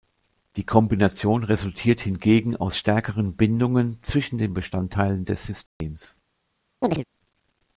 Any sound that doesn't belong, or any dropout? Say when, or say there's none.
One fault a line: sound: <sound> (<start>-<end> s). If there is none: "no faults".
sound: dropout (5.7-5.8 s)
sound: chirp (6.8-7.0 s)